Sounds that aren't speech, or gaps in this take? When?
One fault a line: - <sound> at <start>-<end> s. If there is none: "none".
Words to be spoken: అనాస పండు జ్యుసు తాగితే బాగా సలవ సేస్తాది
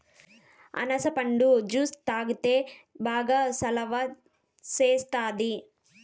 none